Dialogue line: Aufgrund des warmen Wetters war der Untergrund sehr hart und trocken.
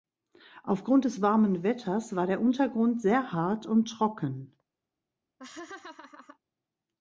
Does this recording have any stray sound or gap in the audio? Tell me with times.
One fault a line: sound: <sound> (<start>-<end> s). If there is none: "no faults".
sound: laugh (5.4-6.4 s)